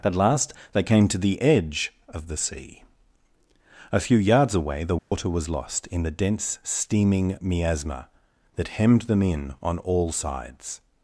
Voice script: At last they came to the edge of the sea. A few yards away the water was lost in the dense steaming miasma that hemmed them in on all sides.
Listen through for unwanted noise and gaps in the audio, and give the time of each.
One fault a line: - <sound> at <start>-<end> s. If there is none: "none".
- dropout at 5.0-5.1 s